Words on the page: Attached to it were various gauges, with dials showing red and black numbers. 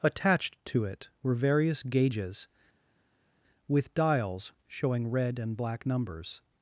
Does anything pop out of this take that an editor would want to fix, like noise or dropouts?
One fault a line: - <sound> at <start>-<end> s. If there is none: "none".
none